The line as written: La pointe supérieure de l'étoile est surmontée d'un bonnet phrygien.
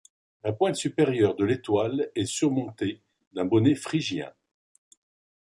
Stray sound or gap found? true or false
false